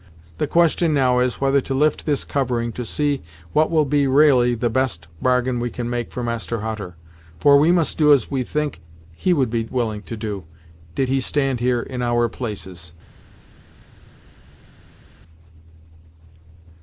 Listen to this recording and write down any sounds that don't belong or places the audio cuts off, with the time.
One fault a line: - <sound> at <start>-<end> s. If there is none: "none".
none